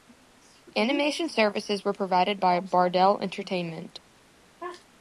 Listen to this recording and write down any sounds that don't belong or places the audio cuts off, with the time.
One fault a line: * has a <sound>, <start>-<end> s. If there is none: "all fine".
all fine